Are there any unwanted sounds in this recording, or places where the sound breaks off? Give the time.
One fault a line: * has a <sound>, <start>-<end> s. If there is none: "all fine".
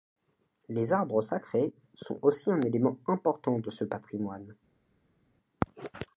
all fine